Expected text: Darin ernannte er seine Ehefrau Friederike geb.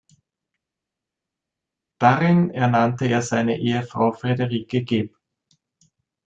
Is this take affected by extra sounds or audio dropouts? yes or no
no